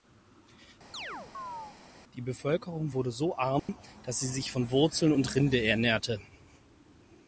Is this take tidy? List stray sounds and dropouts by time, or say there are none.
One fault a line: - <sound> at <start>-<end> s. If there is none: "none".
- chirp at 0.9-1.8 s
- dropout at 3.6-3.7 s